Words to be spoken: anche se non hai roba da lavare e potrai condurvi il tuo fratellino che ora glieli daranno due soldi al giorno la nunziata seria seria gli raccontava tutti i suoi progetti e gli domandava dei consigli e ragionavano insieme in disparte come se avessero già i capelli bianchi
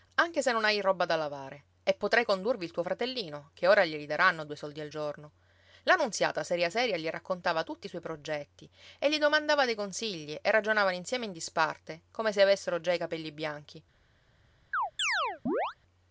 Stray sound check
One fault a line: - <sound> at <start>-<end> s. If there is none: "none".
- chirp at 14.7-15.7 s